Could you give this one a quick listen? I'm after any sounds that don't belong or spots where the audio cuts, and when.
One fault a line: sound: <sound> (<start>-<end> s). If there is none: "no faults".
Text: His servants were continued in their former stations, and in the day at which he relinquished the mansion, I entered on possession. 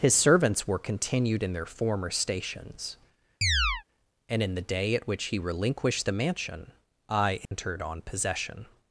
sound: chirp (3.4-3.8 s)
sound: dropout (7.5-7.5 s)